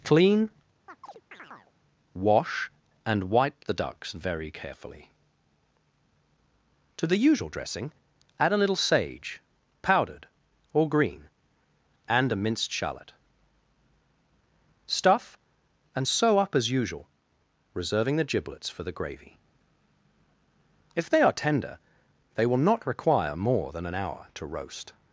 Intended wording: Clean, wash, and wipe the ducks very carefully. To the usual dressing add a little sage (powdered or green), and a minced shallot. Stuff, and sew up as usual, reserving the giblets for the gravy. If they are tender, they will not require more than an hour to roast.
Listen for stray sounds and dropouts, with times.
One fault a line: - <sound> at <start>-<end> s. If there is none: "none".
- chirp at 0.9-1.7 s